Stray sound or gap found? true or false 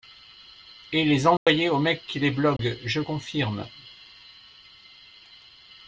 true